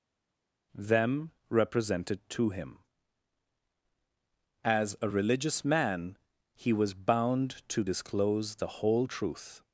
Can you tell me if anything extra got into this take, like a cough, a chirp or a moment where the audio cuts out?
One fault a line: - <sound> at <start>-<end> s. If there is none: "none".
none